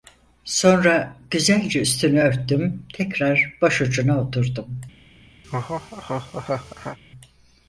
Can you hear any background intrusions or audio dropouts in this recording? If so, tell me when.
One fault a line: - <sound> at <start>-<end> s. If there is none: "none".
- laugh at 5.4-7.0 s